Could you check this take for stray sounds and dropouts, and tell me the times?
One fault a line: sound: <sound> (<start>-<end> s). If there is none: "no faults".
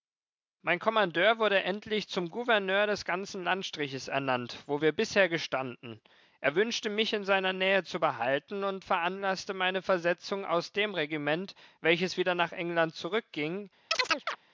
sound: chirp (13.9-14.4 s)